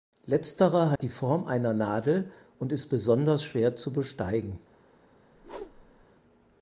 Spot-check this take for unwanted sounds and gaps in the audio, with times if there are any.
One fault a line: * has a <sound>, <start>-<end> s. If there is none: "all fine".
* has a dropout, 1.0-1.0 s
* has a whoosh, 5.3-6.1 s